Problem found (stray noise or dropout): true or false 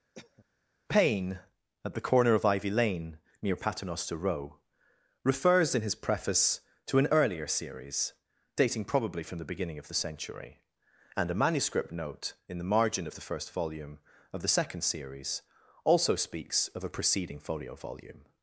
true